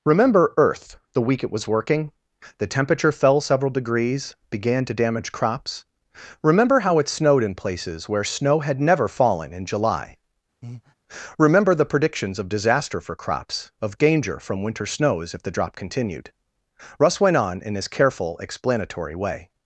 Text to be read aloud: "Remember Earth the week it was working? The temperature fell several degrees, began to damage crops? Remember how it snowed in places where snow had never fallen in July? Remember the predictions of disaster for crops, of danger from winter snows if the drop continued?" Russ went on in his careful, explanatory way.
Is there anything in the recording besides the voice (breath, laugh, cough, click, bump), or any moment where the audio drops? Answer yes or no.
yes